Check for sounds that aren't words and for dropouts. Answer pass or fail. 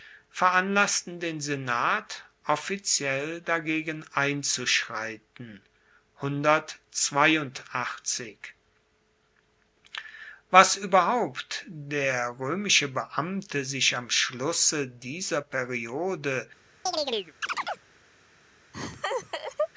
fail